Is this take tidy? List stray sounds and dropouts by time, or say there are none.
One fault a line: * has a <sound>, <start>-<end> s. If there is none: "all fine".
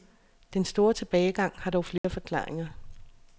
* has a dropout, 2.0-2.0 s